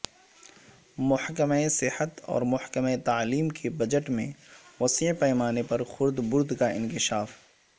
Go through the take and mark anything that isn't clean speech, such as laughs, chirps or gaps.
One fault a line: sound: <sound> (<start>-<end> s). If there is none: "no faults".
no faults